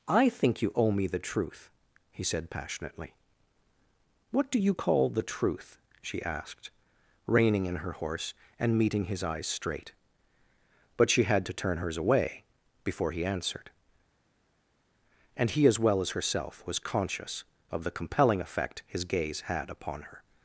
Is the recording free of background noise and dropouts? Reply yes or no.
yes